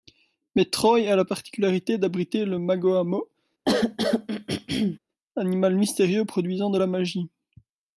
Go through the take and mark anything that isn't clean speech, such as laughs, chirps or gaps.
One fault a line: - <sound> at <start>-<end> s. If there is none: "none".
- throat clearing at 3.7-5.0 s